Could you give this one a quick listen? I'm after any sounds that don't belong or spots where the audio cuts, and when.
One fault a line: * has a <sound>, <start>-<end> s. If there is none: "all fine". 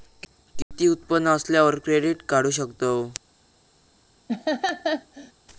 * has a dropout, 0.6-0.7 s
* has a laugh, 4.3-5.3 s